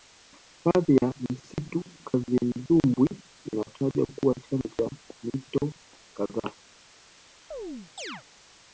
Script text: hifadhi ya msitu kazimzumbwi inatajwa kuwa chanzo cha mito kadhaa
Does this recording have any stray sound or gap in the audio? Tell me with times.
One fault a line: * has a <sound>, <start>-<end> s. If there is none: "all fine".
* has a chirp, 7.5-8.2 s